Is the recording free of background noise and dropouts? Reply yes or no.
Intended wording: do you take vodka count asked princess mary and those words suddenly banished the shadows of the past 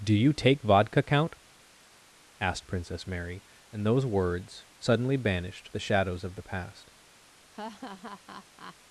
no